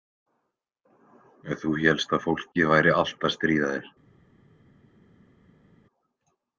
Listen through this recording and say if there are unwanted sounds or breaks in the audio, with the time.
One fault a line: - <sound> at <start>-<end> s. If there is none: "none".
none